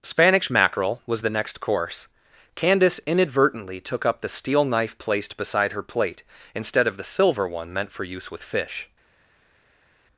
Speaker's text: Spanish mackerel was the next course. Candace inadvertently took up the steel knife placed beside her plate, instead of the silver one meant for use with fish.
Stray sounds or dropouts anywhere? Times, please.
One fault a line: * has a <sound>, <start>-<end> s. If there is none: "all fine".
all fine